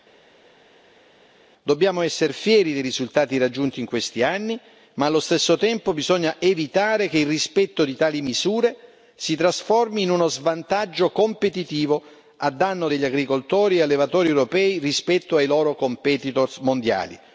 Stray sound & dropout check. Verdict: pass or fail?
pass